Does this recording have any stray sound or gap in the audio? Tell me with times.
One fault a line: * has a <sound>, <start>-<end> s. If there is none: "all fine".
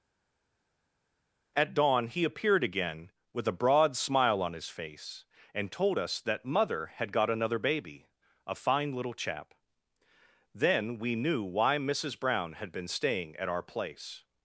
all fine